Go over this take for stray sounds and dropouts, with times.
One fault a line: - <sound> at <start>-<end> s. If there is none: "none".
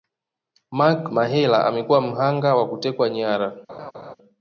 - laugh at 3.7-4.2 s